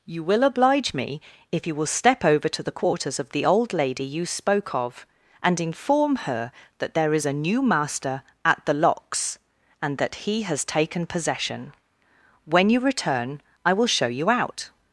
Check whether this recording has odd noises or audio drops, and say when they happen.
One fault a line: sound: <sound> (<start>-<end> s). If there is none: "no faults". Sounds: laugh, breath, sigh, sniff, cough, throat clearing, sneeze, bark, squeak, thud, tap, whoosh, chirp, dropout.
no faults